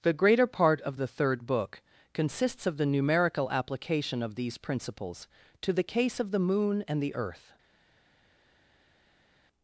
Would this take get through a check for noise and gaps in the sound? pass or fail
pass